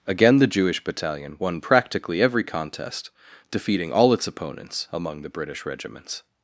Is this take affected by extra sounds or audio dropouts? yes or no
no